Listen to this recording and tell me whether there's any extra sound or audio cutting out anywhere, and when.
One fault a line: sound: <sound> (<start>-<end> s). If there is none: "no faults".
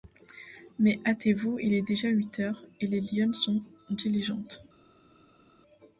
no faults